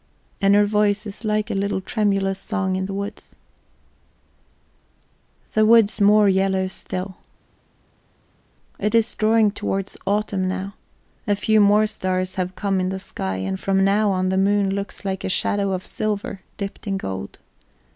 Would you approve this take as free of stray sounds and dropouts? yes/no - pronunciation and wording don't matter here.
yes